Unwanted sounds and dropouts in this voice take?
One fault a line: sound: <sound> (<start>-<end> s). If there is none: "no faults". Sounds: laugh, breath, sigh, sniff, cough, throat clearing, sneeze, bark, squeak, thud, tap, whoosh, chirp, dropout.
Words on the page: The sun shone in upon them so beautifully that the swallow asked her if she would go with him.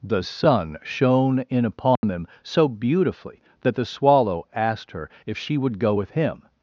sound: dropout (2.0-2.0 s)